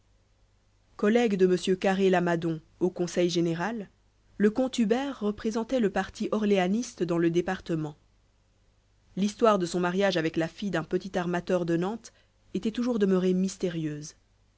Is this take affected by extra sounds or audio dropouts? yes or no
no